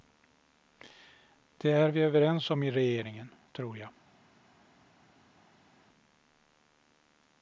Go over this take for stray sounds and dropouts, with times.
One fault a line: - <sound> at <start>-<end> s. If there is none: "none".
none